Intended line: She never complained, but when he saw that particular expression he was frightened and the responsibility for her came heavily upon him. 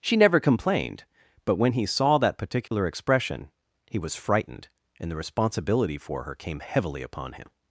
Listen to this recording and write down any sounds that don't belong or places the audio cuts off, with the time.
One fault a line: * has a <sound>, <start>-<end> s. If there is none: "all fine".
* has a dropout, 2.7-2.7 s